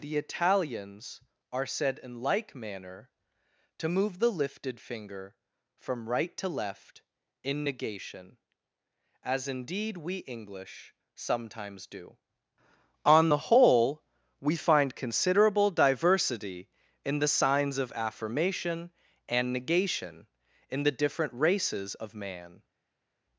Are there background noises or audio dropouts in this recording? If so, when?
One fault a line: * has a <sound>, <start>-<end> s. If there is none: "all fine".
all fine